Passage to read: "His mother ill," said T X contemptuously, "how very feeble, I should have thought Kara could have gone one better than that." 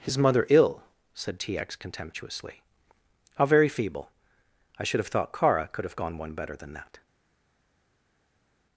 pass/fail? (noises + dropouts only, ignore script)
pass